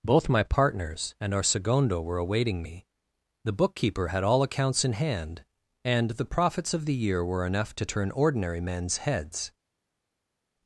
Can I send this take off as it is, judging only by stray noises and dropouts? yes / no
yes